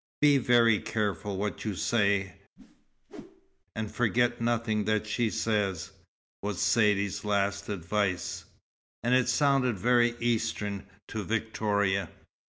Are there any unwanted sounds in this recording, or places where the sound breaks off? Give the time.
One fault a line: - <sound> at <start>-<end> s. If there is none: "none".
- whoosh at 2.6-3.6 s